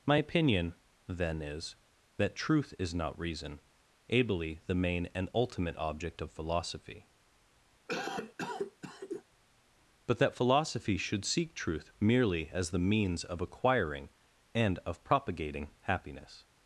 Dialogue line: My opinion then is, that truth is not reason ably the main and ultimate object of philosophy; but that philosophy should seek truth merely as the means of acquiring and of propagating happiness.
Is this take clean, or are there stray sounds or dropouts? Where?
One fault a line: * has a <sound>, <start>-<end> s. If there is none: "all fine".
* has a cough, 7.9-9.2 s